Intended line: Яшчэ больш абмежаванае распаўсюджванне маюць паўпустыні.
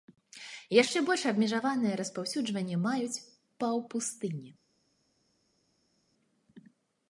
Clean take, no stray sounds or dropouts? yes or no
yes